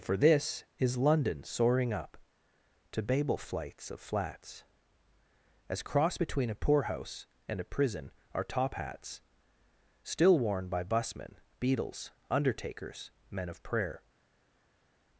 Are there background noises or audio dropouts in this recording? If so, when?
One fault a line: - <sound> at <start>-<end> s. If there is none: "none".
none